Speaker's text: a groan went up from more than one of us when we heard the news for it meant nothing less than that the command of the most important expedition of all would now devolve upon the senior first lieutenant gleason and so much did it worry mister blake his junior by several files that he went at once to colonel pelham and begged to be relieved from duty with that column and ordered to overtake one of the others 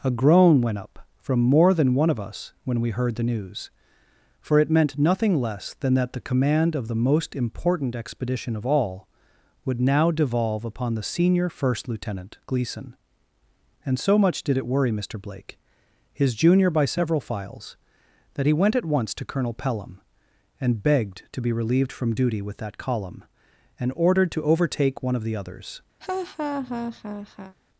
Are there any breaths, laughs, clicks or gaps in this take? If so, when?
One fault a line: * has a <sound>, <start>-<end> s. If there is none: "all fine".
* has a laugh, 26.0-27.6 s